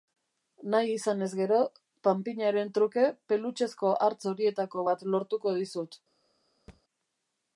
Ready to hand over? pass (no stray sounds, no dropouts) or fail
fail